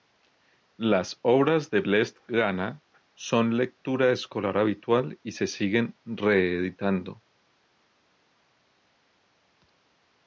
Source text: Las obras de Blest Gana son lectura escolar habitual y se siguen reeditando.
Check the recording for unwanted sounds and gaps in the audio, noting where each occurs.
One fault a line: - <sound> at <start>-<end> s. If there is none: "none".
none